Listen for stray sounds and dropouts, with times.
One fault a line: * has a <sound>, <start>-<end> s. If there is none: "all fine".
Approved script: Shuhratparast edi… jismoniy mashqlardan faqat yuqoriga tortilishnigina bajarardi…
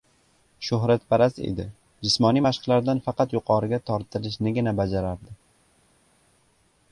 all fine